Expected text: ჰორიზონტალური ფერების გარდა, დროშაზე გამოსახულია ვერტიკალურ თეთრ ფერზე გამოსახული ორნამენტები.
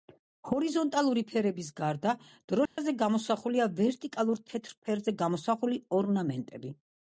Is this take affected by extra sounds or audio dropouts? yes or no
yes